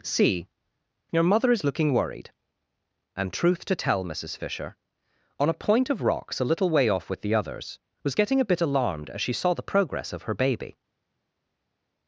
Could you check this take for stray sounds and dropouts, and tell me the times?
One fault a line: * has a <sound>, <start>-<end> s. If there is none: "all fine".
all fine